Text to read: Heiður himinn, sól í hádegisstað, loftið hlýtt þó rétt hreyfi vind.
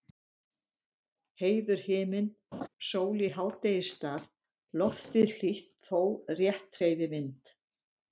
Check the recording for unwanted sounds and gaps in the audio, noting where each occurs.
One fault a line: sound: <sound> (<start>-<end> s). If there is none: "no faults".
sound: laugh (2.5-2.7 s)